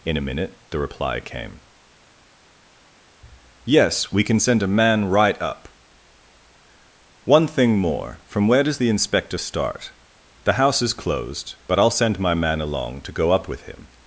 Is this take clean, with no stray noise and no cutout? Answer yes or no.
yes